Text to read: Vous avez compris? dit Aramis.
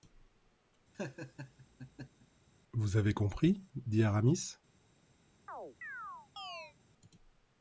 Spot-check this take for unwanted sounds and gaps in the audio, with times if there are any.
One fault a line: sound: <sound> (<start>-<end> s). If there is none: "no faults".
sound: laugh (0.9-2.3 s)
sound: chirp (5.5-6.7 s)